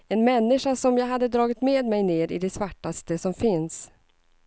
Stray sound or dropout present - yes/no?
no